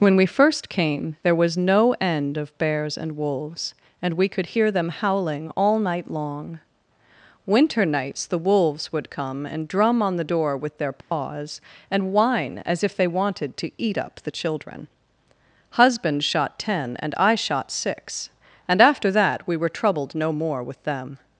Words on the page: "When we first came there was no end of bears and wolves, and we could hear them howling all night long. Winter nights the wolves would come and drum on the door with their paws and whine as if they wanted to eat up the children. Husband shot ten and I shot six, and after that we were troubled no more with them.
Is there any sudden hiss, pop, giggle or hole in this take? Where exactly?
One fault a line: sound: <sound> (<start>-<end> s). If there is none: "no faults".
sound: dropout (11.0-11.1 s)